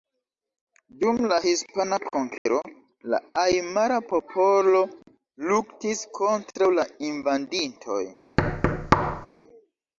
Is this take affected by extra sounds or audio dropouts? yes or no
yes